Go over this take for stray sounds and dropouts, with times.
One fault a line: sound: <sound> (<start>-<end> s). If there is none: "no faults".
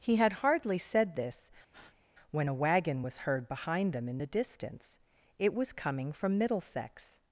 sound: breath (1.7-2.0 s)